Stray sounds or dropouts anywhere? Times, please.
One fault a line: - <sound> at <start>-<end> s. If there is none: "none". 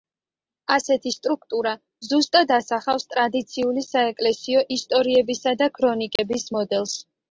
- dropout at 6.2-6.2 s